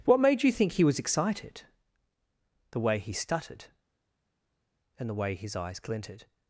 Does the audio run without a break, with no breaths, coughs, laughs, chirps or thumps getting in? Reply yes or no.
yes